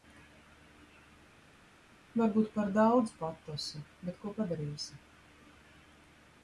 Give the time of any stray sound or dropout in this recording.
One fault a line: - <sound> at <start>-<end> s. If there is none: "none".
none